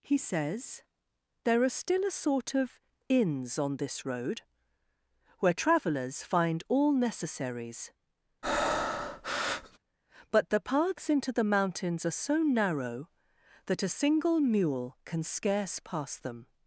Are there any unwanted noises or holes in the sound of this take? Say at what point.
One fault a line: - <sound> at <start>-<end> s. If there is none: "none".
- breath at 8.4-9.8 s